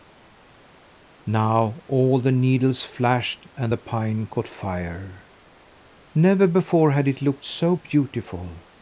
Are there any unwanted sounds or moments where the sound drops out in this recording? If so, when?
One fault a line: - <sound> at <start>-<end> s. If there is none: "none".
none